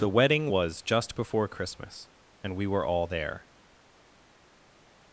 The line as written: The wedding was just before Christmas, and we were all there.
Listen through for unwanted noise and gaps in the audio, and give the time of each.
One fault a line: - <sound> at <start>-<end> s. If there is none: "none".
none